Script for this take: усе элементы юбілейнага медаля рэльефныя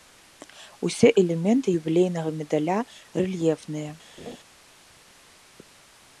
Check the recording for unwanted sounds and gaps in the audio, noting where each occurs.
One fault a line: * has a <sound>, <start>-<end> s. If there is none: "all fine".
* has a laugh, 4.2-4.4 s